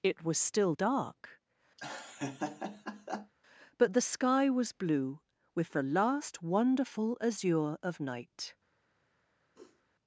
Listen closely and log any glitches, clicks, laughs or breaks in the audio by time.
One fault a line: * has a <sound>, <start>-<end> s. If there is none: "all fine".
* has a laugh, 1.8-3.3 s
* has a sniff, 9.5-9.8 s